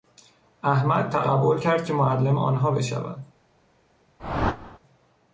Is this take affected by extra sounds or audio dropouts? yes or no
yes